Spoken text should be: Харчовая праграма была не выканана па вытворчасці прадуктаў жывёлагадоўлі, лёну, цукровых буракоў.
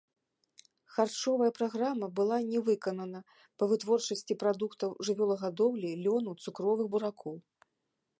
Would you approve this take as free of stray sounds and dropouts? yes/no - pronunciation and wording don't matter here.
yes